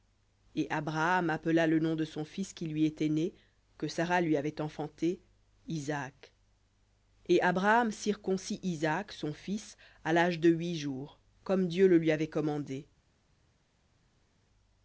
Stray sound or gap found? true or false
false